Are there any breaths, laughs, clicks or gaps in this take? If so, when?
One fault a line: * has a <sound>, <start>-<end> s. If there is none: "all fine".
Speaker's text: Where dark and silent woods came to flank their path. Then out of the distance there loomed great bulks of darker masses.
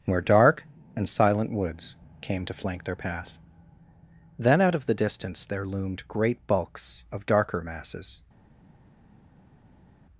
all fine